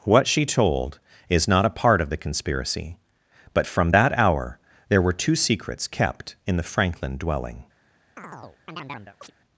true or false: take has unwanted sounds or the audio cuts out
true